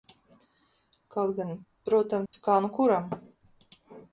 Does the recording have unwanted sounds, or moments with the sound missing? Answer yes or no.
yes